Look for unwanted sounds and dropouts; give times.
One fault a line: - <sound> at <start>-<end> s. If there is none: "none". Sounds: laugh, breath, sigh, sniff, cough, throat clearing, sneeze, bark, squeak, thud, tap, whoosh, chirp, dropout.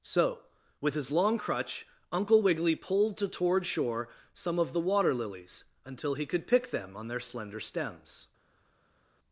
none